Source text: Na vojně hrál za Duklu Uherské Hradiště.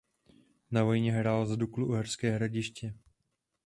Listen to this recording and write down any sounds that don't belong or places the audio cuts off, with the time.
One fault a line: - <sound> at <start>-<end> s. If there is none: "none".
none